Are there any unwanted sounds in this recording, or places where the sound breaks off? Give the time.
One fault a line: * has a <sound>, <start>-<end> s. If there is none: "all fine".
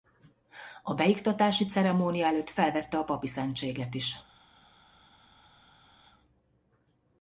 all fine